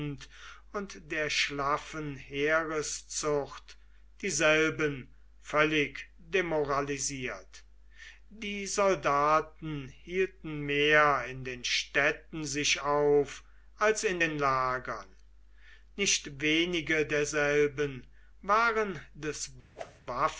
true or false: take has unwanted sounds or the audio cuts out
true